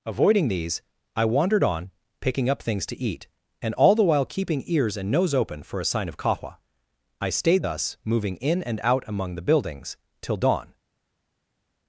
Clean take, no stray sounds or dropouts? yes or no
yes